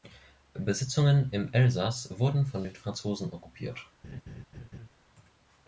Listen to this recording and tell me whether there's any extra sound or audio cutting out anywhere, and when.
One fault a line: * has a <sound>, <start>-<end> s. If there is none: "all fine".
* has a laugh, 4.0-4.9 s